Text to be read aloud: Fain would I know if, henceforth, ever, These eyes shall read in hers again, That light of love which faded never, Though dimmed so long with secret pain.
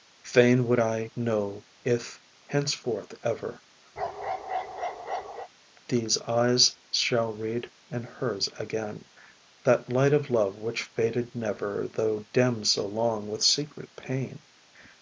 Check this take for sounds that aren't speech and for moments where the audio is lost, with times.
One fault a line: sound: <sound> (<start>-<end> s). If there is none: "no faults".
sound: bark (4.0-5.5 s)